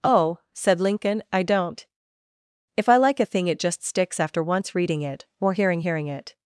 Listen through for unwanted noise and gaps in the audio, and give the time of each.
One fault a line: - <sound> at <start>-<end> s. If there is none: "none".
none